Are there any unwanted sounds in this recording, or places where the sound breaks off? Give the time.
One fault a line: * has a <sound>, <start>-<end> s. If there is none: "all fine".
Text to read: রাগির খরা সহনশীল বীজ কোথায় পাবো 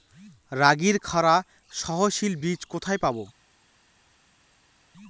all fine